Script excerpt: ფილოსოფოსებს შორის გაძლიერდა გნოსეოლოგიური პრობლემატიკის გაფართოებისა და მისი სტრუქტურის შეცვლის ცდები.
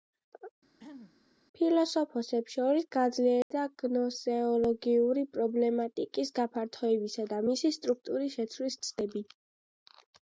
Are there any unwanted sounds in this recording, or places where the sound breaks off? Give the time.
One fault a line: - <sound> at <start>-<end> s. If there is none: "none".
- throat clearing at 0.8-1.2 s
- dropout at 3.4-3.5 s